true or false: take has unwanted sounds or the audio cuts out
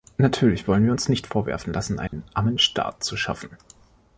true